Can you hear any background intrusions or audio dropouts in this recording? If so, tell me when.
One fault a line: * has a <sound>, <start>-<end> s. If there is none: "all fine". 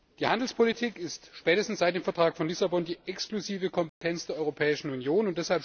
* has a dropout, 3.9-4.0 s